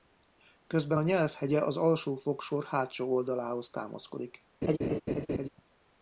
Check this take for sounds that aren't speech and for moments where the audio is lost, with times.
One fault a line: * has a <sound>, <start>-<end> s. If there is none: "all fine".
* has a laugh, 4.6-5.5 s